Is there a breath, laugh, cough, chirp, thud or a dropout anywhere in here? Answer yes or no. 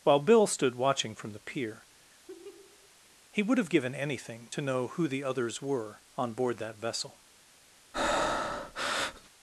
yes